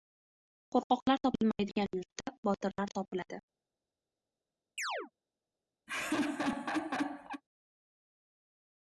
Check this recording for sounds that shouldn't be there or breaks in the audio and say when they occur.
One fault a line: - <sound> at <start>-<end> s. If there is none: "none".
- chirp at 4.8-5.1 s
- laugh at 5.9-7.4 s